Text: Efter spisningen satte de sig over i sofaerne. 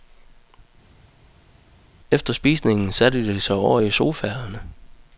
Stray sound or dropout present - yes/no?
no